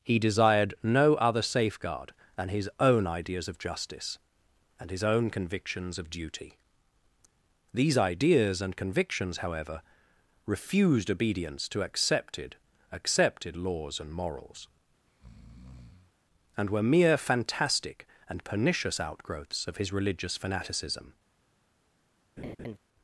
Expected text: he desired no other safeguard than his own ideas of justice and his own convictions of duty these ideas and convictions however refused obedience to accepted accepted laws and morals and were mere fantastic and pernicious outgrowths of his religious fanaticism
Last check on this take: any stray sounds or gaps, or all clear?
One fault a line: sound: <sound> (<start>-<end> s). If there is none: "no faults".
sound: breath (15.1-16.1 s)
sound: laugh (22.4-22.8 s)